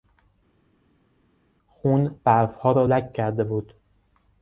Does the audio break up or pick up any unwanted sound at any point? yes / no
no